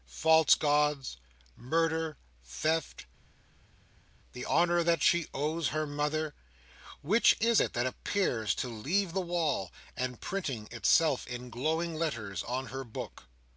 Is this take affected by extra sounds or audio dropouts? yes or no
no